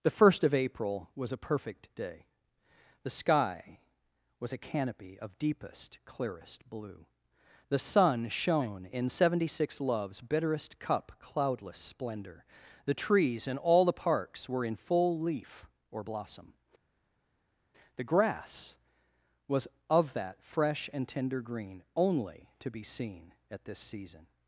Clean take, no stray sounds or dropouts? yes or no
yes